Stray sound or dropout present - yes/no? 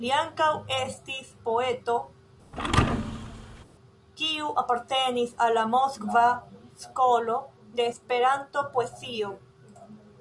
yes